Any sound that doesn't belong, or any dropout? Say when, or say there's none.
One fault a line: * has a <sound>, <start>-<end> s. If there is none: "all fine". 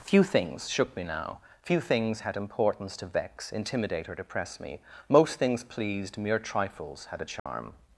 * has a dropout, 7.4-7.5 s